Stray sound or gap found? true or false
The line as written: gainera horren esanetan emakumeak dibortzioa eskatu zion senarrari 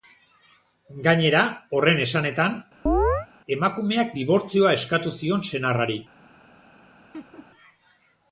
true